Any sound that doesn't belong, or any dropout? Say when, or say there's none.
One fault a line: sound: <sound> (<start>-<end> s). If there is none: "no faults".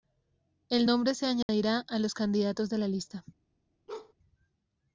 sound: dropout (1.4-1.5 s)
sound: bark (3.9-4.1 s)